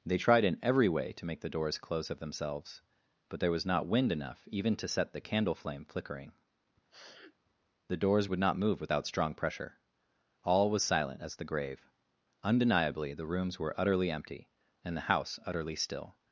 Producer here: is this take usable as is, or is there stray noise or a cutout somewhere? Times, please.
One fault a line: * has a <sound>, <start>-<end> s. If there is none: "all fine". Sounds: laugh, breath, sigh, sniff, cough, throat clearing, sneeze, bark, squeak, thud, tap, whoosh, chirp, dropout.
* has a sniff, 6.9-7.3 s